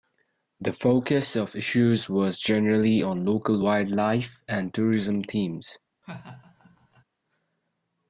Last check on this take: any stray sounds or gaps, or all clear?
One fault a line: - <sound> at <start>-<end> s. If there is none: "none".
- laugh at 6.0-7.0 s